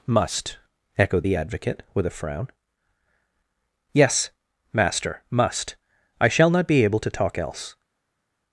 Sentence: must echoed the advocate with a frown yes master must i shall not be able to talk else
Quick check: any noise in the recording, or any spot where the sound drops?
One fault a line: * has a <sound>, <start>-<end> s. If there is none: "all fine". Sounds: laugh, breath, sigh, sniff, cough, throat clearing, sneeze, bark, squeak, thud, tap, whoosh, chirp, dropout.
all fine